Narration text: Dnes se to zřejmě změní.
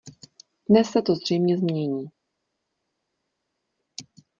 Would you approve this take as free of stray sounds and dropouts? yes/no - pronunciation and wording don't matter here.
yes